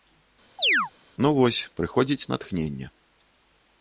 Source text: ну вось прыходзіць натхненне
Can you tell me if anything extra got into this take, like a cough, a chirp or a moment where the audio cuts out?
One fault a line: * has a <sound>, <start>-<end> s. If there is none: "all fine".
* has a chirp, 0.6-0.9 s